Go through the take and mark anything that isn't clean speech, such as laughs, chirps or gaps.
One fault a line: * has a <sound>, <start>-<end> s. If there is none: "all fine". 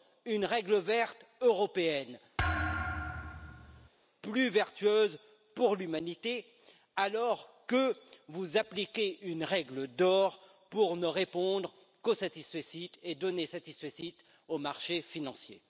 * has a thud, 2.4-3.9 s